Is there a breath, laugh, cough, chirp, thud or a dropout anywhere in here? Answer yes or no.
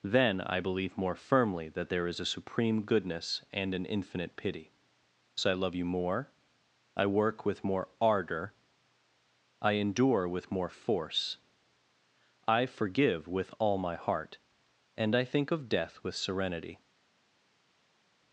no